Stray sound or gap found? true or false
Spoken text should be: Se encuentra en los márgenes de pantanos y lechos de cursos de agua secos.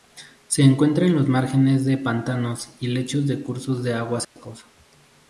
true